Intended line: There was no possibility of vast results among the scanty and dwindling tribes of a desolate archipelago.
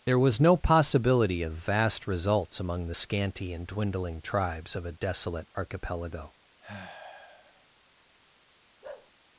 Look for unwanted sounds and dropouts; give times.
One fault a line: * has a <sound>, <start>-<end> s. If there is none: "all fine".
* has a sigh, 6.6-7.7 s
* has a bark, 8.8-9.1 s